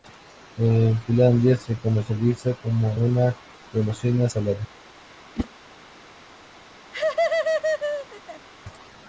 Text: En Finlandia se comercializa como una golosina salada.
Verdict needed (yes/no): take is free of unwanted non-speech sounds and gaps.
no